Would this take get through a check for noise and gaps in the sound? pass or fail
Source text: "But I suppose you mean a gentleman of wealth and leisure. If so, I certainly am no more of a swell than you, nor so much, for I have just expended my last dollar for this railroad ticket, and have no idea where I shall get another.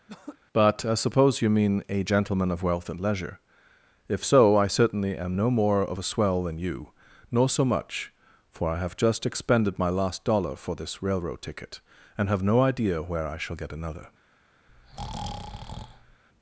fail